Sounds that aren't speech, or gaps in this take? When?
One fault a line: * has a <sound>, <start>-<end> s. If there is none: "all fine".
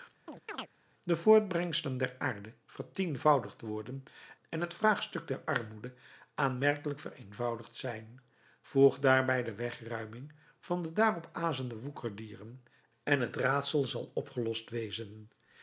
* has a chirp, 0.3-0.7 s